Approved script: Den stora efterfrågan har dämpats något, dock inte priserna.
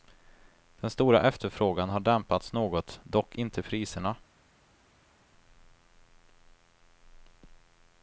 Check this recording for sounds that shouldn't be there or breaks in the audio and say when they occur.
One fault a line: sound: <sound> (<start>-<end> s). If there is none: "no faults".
no faults